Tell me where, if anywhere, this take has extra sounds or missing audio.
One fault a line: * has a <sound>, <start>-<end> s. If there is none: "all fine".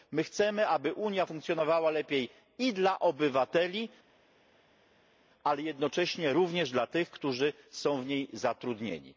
all fine